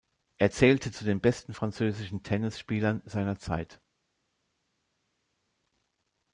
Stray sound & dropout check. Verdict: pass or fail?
pass